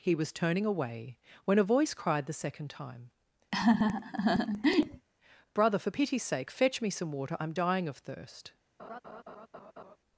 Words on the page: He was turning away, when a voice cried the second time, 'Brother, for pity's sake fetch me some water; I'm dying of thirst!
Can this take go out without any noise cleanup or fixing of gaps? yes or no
no